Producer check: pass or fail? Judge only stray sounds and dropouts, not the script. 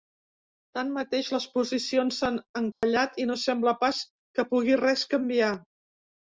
fail